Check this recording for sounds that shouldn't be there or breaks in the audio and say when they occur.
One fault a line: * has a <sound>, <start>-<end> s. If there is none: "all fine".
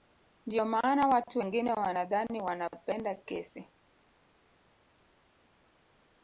all fine